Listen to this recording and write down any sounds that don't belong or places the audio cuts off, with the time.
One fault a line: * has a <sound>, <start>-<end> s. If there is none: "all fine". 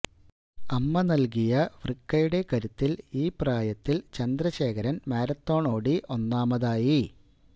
all fine